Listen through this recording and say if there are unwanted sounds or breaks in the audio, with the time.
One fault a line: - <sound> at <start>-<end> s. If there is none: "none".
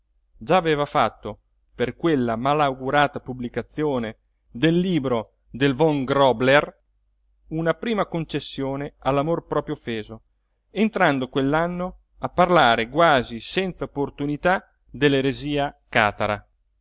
none